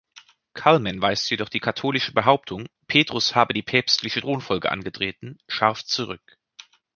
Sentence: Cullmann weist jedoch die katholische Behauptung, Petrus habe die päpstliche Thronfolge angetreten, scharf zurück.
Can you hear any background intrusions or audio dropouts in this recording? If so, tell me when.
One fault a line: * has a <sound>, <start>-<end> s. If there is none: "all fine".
all fine